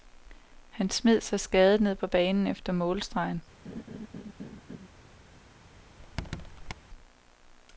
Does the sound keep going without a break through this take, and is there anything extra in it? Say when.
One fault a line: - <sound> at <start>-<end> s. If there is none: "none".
- laugh at 3.7-4.9 s
- squeak at 6.0-6.7 s